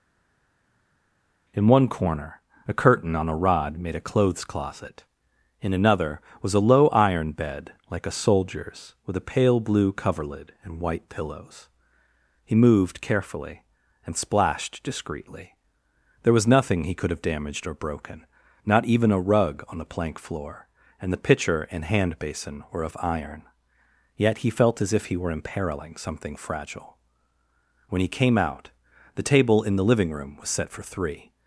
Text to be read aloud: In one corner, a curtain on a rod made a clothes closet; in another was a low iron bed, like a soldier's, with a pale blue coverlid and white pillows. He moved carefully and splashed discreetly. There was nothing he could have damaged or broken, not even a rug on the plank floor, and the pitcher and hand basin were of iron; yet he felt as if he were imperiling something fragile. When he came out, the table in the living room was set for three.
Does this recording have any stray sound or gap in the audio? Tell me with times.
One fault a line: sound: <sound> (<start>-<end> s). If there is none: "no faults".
no faults